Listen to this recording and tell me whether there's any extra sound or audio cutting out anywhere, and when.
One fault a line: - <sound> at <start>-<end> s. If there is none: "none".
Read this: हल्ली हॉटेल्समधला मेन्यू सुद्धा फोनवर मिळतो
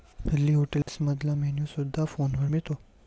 - dropout at 0.8-0.9 s